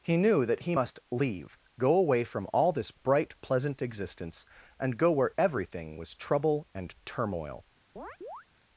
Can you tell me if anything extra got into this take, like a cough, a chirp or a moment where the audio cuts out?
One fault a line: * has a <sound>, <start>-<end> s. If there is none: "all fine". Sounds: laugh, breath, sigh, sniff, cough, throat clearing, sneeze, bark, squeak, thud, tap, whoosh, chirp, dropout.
* has a chirp, 8.0-8.5 s